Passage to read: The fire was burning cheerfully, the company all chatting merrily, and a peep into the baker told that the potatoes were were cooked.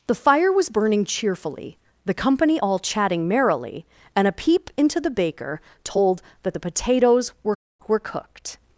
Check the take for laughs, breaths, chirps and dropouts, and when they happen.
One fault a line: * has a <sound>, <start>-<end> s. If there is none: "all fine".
all fine